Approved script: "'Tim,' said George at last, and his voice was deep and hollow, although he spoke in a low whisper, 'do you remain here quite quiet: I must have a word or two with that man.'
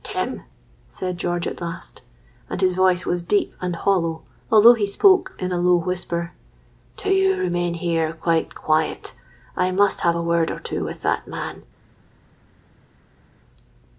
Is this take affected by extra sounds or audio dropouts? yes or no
no